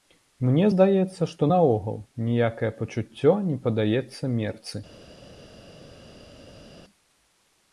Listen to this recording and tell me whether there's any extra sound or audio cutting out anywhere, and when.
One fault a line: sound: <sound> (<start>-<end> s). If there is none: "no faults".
no faults